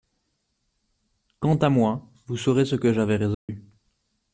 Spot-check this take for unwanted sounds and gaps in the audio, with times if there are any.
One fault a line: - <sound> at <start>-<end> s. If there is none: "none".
- dropout at 3.3-3.5 s